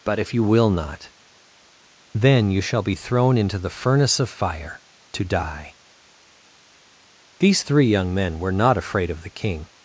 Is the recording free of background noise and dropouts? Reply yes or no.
yes